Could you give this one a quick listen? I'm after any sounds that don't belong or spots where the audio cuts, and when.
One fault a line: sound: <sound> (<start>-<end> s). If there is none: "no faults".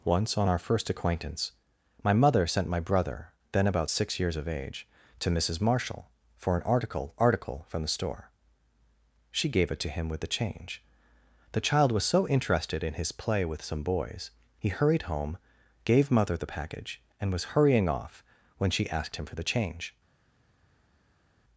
no faults